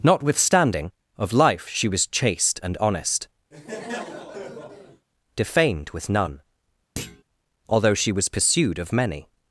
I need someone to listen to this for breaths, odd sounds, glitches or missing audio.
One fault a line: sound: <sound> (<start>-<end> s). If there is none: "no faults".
sound: laugh (3.5-5.1 s)
sound: thud (7.0-7.2 s)